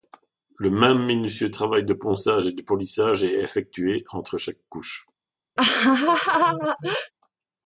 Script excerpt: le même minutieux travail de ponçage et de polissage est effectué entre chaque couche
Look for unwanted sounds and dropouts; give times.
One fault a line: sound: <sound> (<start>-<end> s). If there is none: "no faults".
sound: laugh (5.6-7.1 s)